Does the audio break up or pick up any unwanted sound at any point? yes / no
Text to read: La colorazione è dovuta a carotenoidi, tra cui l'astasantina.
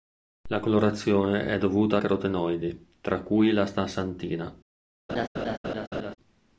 yes